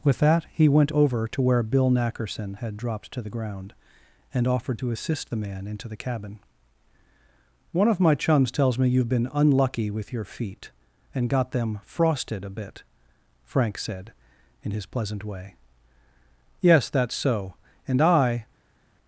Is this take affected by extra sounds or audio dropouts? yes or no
no